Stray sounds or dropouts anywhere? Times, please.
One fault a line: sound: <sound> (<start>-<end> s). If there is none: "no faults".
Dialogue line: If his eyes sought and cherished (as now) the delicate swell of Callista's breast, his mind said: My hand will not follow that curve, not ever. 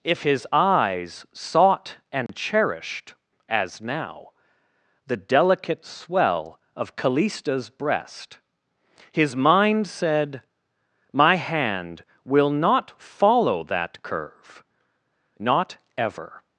sound: dropout (2.3-2.3 s)